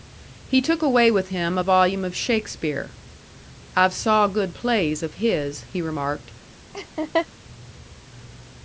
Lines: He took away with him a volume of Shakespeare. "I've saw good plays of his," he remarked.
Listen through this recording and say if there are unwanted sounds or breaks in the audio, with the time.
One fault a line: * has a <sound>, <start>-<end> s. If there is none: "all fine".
* has a laugh, 6.7-7.3 s